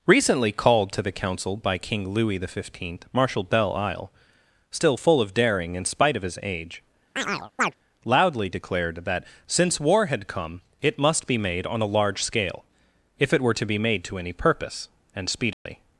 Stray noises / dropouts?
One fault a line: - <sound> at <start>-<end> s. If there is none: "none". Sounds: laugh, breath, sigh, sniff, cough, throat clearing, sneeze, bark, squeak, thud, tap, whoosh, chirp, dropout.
- chirp at 7.2-7.7 s
- dropout at 15.5-15.7 s